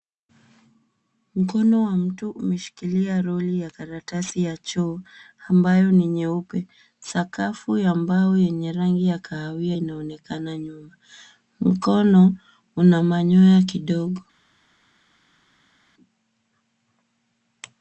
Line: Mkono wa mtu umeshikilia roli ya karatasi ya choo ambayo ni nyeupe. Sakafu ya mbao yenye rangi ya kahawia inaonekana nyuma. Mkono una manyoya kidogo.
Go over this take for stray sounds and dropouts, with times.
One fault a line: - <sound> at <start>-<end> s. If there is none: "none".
none